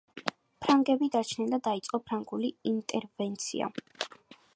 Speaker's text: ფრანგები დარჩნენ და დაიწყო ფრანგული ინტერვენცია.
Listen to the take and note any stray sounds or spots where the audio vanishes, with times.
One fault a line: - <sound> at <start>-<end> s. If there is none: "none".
none